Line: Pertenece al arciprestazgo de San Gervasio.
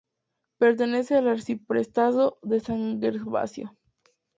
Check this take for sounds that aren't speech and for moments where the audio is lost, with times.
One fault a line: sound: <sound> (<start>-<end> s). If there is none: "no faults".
no faults